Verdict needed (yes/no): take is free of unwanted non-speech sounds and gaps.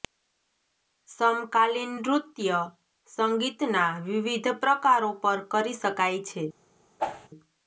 no